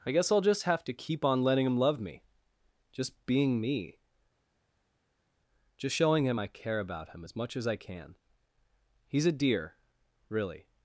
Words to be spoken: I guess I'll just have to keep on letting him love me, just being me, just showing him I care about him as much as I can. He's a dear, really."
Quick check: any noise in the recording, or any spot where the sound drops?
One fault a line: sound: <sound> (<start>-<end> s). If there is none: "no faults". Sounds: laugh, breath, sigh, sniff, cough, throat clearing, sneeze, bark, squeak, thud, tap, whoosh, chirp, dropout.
no faults